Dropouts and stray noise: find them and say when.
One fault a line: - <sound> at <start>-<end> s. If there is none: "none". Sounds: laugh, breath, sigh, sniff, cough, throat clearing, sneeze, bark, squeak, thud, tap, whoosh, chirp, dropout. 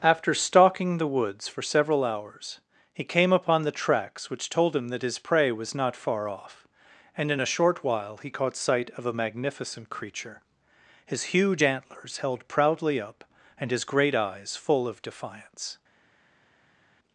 none